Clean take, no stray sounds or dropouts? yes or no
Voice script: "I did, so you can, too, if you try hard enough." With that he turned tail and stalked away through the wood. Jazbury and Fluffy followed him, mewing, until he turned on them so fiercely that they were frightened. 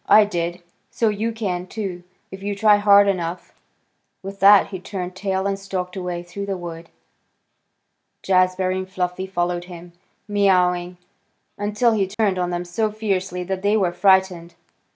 no